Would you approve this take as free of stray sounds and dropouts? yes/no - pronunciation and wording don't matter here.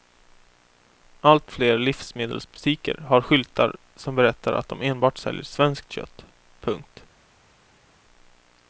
yes